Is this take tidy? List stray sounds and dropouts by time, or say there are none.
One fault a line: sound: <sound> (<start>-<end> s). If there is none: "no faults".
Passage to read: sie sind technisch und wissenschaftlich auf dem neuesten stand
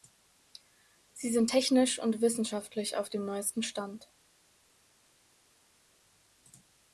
no faults